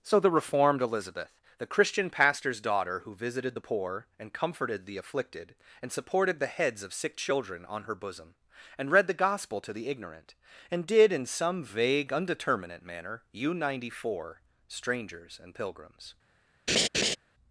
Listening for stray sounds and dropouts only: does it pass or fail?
fail